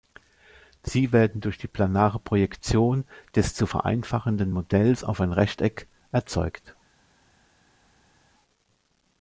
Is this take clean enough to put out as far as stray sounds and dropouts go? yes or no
yes